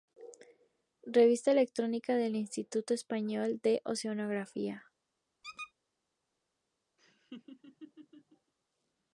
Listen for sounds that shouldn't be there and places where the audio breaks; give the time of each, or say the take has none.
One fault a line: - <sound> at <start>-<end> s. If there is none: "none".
- squeak at 5.4-5.7 s
- laugh at 7.0-8.5 s